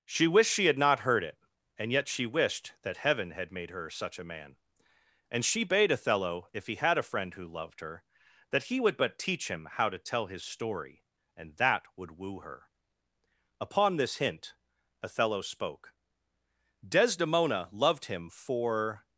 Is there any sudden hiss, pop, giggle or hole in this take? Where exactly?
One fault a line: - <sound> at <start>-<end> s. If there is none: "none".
none